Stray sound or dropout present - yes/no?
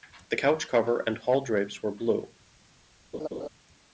yes